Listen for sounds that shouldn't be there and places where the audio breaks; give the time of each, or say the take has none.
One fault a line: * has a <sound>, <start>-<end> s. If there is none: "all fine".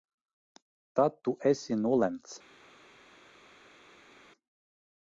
all fine